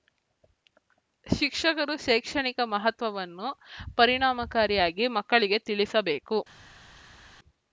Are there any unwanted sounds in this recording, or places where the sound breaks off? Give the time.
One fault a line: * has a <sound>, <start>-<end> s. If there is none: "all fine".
all fine